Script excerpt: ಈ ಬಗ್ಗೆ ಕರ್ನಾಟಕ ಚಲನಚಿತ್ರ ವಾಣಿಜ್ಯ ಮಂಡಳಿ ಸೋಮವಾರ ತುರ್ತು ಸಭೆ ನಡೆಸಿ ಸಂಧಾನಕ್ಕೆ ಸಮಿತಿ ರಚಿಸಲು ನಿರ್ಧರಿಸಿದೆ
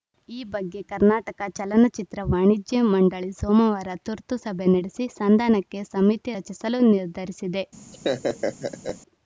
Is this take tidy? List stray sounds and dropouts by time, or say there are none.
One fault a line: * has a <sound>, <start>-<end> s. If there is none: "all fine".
* has a laugh, 7.9-9.0 s